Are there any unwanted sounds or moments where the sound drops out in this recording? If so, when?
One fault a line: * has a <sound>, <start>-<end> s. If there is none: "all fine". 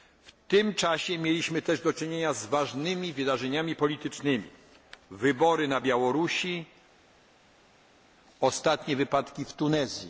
all fine